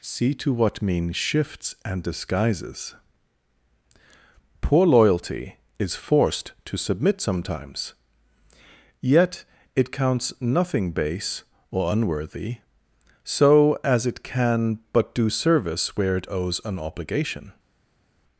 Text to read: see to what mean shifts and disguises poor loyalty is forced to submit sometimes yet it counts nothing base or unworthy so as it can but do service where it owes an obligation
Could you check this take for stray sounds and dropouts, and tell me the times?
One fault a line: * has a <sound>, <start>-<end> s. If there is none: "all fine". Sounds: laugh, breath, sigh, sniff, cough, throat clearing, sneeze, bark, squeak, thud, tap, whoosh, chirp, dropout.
all fine